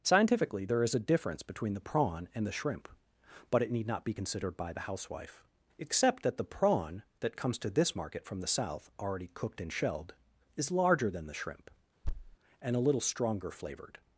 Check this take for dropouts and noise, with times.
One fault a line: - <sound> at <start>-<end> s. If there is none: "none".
- thud at 12.0-12.4 s